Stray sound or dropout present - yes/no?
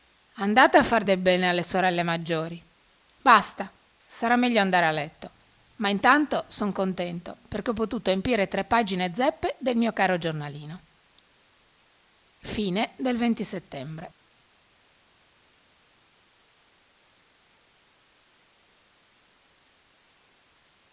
no